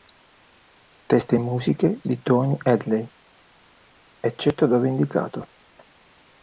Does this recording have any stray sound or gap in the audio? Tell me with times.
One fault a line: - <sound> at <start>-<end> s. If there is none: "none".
none